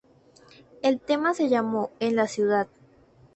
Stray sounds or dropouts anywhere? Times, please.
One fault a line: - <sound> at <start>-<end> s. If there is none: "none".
none